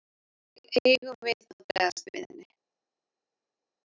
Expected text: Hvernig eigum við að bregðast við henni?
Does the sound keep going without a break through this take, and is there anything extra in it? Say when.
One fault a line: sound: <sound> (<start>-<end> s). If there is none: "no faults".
no faults